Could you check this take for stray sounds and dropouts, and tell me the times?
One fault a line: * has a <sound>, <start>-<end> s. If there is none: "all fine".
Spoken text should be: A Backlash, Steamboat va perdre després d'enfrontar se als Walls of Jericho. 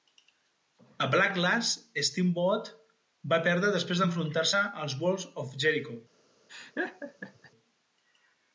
* has a laugh, 6.5-7.5 s